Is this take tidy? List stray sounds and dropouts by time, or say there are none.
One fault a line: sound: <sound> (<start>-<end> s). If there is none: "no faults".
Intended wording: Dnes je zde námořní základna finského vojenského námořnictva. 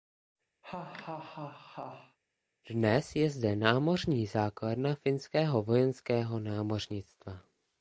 sound: laugh (0.6-2.2 s)